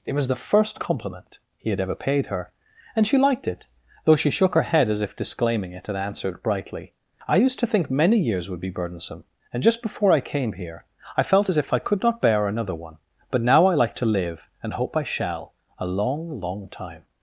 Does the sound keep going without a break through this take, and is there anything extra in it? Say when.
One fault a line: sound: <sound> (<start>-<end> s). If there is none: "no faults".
no faults